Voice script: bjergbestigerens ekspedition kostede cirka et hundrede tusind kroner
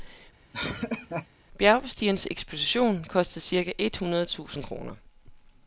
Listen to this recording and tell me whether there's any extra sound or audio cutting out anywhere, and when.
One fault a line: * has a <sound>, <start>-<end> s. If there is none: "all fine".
* has a laugh, 0.5-1.3 s